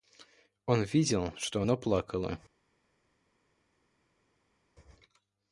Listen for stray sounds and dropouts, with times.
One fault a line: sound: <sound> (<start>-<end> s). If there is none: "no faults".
no faults